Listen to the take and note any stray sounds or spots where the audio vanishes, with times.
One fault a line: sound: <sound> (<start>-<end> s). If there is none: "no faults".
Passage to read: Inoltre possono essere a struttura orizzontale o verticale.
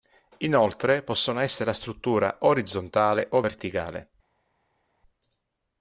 no faults